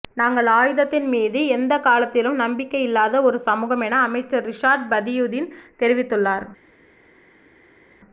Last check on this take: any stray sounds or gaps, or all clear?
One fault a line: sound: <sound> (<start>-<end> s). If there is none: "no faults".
no faults